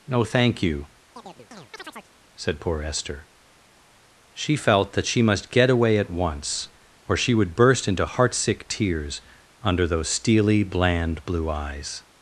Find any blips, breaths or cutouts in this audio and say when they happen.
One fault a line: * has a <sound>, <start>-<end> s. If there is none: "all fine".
* has a chirp, 1.2-2.1 s